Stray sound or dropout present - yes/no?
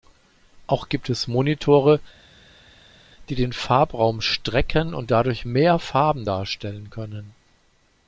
no